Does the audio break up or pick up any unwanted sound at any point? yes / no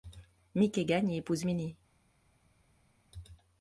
no